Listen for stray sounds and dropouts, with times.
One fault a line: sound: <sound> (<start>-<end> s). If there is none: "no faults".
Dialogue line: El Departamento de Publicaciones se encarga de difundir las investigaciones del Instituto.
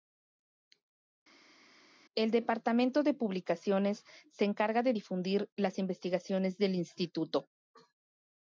no faults